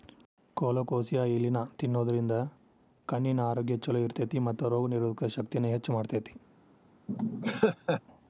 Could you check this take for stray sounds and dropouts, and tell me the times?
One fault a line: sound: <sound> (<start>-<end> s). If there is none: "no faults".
sound: laugh (7.1-8.0 s)